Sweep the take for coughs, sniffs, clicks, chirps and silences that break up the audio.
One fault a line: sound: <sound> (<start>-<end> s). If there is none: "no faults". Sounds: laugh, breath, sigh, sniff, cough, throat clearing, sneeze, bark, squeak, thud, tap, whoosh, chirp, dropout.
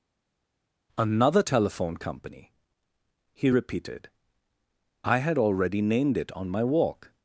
no faults